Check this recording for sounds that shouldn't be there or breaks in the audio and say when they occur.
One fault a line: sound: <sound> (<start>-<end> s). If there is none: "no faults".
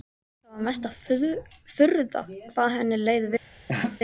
sound: laugh (3.7-4.0 s)